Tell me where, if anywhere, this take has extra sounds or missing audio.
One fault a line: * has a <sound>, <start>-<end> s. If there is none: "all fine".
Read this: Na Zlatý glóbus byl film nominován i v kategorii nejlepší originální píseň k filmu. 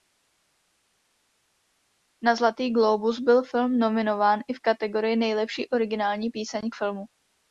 all fine